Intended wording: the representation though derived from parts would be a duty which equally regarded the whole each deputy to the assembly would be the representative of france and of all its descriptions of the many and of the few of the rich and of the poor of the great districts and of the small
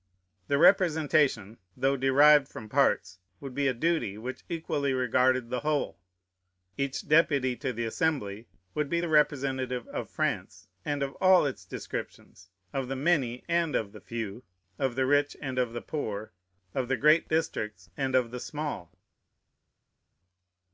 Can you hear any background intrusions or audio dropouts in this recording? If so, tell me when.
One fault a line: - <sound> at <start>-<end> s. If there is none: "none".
none